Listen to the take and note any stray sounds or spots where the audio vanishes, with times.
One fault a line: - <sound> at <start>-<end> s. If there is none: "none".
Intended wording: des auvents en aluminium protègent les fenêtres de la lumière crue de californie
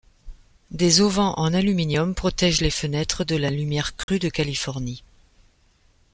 - dropout at 4.0-4.1 s